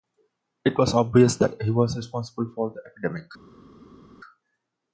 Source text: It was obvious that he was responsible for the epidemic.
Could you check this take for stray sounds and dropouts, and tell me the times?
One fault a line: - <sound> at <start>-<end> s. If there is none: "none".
none